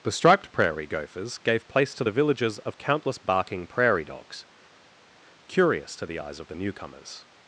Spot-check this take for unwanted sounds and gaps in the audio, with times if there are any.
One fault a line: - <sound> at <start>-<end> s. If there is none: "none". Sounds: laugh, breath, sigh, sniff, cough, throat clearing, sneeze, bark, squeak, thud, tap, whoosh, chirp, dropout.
none